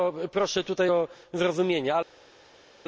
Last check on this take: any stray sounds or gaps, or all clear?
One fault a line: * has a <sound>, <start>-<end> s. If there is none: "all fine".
all fine